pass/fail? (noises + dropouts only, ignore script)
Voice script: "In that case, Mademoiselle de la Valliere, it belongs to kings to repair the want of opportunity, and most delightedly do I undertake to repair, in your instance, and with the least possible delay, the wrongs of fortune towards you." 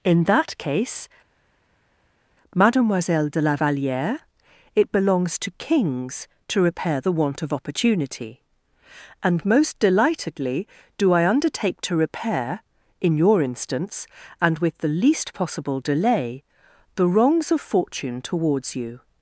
pass